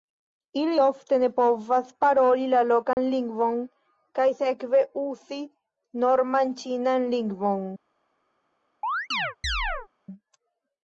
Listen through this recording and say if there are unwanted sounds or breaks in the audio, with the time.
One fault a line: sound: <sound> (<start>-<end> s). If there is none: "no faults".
sound: dropout (2.9-3.0 s)
sound: chirp (8.8-9.9 s)